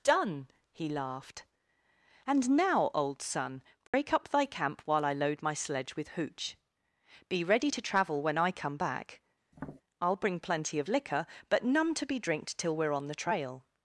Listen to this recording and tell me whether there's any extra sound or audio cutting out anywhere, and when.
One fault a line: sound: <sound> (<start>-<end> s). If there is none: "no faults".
sound: dropout (3.9-3.9 s)
sound: tap (9.5-9.8 s)